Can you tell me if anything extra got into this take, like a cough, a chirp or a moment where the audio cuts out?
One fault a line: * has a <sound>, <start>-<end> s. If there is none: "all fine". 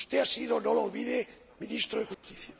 * has a dropout, 2.1-2.2 s